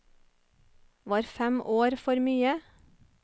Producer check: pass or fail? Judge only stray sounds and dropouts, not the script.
pass